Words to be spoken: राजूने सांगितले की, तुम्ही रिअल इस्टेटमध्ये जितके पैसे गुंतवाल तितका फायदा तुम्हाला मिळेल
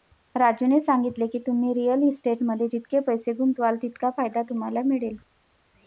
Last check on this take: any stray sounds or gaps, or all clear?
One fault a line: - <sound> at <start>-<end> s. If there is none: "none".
none